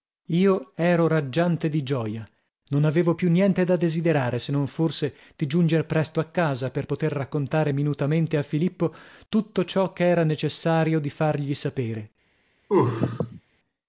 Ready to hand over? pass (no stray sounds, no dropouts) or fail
fail